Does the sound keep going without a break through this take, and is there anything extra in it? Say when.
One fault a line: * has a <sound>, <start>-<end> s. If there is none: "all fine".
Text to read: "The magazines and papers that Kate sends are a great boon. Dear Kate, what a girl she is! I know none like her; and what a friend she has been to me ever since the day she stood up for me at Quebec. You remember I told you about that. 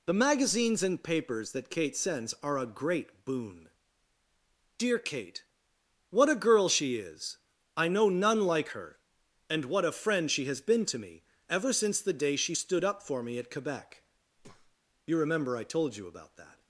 * has a breath, 14.4-14.8 s